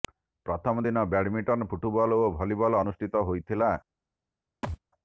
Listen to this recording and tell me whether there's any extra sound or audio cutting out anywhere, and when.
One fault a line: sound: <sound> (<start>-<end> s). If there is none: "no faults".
sound: thud (4.6-4.8 s)